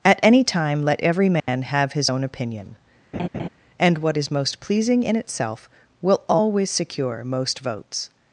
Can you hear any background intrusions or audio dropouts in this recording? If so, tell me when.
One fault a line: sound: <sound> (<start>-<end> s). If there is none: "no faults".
sound: dropout (1.4-1.5 s)
sound: laugh (3.1-3.5 s)